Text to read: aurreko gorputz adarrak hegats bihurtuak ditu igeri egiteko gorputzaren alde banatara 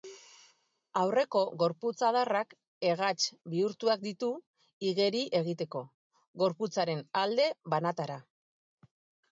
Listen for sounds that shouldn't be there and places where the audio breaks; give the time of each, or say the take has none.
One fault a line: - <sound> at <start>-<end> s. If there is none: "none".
none